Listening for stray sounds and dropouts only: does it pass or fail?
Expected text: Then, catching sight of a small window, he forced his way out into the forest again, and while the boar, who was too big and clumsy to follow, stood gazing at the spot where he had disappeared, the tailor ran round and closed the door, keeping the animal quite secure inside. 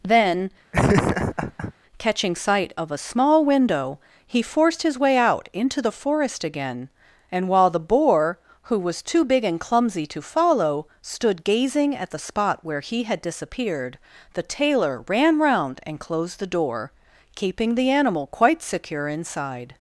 fail